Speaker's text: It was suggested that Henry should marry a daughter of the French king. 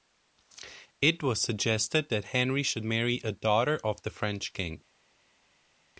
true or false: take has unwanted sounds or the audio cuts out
false